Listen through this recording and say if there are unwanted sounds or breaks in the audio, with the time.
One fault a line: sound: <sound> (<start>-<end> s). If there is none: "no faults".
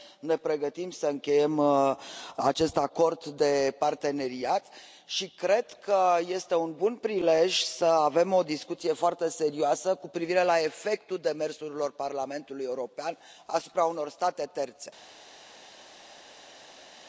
no faults